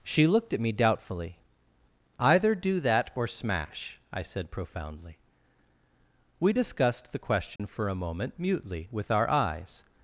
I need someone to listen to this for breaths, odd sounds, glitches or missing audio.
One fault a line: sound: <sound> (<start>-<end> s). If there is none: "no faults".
sound: dropout (7.6-7.6 s)